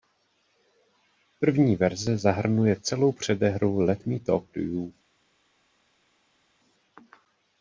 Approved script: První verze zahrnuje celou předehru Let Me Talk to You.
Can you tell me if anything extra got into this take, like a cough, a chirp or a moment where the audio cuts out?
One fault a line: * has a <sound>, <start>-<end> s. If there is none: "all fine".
all fine